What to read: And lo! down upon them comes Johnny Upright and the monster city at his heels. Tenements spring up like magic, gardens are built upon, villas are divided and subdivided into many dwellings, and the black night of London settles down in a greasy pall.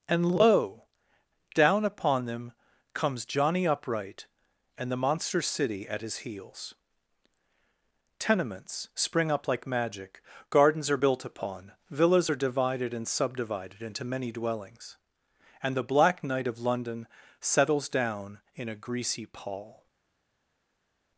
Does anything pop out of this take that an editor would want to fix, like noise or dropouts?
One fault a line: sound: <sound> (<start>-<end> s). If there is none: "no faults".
no faults